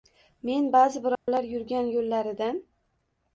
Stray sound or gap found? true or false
true